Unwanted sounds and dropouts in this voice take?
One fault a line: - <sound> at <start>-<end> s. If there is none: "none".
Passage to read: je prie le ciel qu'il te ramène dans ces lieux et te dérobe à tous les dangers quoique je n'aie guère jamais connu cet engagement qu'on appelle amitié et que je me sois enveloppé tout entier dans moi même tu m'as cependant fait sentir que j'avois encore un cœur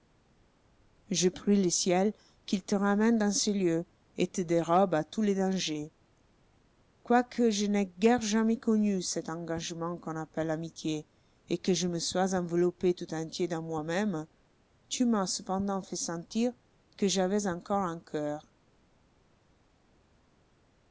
none